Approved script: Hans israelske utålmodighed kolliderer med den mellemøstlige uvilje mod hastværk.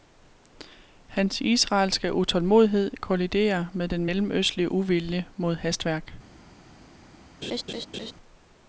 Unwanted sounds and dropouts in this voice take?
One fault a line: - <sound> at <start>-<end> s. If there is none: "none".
- laugh at 7.4-8.1 s